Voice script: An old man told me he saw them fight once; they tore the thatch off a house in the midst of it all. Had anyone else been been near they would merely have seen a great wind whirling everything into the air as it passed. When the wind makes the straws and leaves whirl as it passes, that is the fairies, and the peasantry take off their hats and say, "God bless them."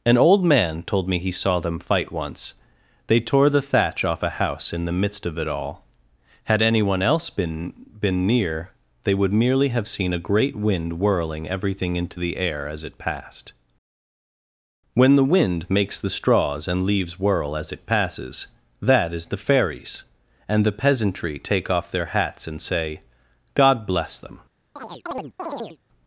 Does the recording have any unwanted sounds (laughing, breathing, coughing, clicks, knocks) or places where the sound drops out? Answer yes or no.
yes